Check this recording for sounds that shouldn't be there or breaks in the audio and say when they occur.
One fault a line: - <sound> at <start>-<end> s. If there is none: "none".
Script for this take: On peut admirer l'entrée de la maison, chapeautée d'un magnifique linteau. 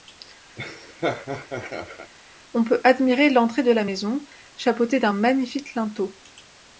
- laugh at 0.6-2.1 s